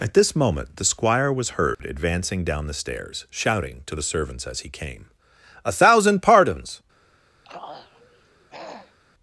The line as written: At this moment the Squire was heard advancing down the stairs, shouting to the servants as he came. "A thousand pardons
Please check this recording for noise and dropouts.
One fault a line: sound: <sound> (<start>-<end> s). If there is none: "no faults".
sound: dropout (1.7-1.8 s)
sound: throat clearing (7.4-9.0 s)